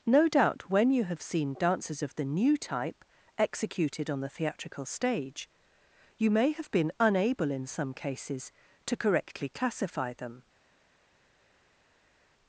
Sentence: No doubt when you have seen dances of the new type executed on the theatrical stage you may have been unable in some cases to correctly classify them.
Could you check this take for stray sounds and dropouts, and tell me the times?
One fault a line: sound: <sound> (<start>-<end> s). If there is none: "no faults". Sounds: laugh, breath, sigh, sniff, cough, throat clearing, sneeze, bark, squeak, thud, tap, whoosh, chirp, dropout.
no faults